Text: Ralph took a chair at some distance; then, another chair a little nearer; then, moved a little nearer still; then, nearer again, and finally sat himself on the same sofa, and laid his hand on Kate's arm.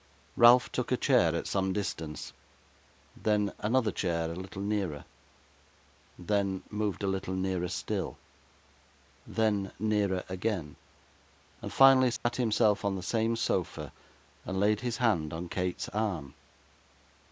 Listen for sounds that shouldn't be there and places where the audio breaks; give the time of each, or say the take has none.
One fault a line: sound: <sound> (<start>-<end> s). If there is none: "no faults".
sound: dropout (12.2-12.2 s)